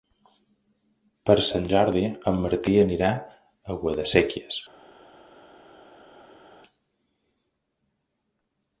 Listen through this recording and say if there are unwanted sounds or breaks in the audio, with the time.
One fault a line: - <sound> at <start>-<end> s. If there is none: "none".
none